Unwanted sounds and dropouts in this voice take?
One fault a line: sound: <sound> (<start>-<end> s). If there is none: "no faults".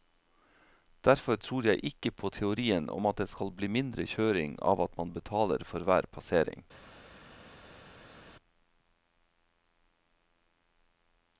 no faults